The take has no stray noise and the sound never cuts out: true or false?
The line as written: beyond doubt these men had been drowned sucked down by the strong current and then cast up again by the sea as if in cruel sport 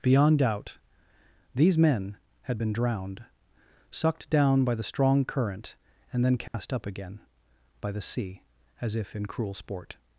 false